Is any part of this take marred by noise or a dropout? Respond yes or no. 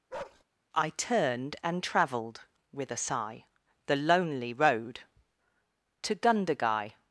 yes